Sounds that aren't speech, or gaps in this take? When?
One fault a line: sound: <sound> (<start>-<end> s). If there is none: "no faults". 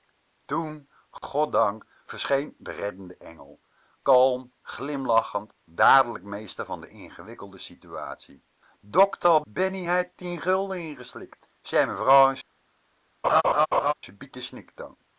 sound: dropout (1.2-1.2 s)
sound: laugh (13.2-13.9 s)